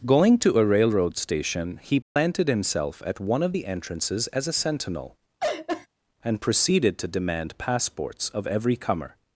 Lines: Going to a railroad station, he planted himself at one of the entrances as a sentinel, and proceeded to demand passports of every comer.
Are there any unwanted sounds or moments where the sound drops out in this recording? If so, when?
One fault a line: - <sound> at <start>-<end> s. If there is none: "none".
- dropout at 2.0-2.2 s
- laugh at 5.4-5.9 s